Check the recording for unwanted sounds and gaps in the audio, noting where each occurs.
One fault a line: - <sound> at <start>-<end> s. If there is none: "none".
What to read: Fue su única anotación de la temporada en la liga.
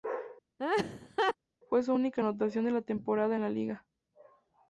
- laugh at 0.6-1.4 s